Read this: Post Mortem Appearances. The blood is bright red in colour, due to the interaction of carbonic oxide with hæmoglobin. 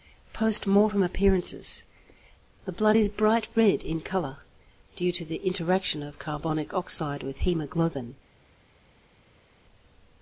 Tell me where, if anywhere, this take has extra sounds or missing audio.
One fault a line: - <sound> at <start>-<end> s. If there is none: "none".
none